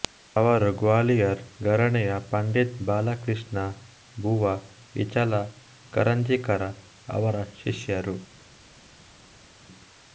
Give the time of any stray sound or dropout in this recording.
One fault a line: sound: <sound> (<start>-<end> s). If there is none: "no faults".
no faults